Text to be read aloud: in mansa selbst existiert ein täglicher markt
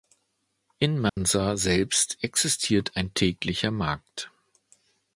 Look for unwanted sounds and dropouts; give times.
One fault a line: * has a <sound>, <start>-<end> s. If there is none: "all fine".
* has a dropout, 1.1-1.2 s